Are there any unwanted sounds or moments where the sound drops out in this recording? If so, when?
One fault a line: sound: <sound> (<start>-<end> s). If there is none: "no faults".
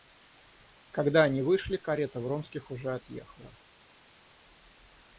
no faults